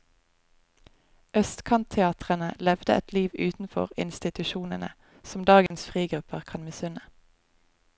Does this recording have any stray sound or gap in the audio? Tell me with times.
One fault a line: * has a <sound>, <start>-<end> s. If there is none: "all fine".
* has a dropout, 5.7-5.7 s